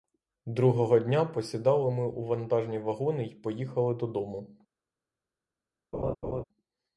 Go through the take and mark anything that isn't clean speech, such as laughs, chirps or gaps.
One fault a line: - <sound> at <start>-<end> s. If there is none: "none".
- laugh at 5.9-6.4 s